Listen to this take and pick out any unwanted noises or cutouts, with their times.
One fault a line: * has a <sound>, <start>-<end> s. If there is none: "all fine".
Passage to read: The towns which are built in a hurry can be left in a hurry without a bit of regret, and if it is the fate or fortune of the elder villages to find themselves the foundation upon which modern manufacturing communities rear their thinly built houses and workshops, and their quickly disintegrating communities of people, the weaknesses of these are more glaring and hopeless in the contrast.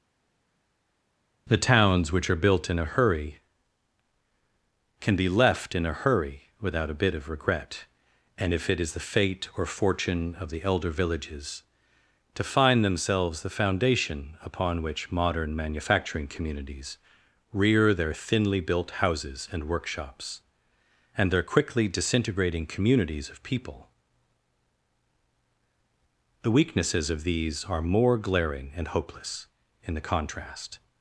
all fine